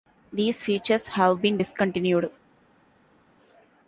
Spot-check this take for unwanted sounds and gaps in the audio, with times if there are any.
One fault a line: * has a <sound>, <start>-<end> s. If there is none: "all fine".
all fine